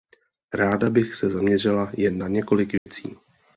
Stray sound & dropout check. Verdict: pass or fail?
fail